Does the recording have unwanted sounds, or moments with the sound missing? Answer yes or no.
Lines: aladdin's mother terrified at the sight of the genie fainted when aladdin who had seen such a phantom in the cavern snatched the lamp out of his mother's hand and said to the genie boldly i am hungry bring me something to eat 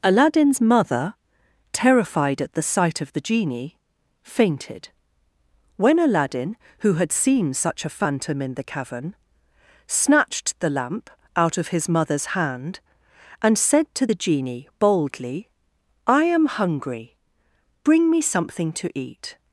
no